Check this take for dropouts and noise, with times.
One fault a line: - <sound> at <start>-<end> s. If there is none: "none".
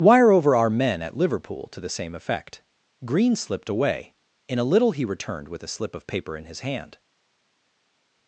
none